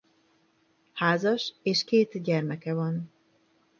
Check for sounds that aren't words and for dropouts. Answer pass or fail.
pass